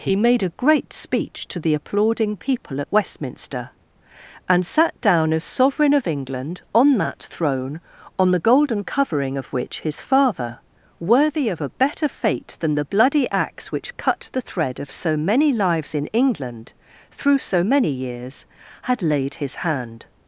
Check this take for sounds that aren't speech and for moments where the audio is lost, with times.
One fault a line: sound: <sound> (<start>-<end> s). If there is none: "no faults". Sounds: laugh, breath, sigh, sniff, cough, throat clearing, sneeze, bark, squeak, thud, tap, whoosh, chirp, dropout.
no faults